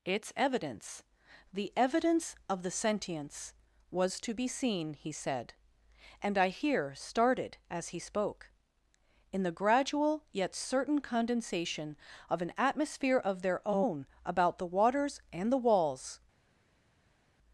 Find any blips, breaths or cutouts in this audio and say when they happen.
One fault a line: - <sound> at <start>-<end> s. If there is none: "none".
none